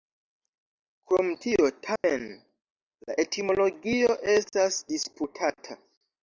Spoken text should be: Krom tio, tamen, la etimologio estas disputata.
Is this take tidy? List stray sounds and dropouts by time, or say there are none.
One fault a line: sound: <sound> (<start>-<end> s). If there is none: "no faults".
sound: dropout (2.0-2.0 s)